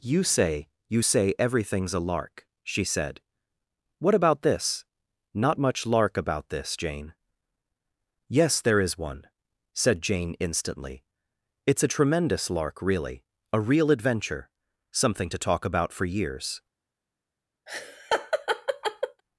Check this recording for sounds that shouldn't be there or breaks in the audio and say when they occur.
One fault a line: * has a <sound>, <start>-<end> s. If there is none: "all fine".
* has a laugh, 17.7-19.2 s